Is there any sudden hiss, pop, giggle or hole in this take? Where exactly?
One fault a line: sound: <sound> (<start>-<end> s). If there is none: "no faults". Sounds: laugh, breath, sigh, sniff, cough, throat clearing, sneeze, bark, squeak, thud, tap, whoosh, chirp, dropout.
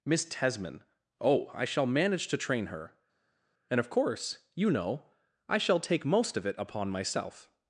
no faults